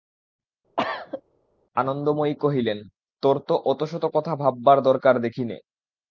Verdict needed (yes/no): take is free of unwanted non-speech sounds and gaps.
no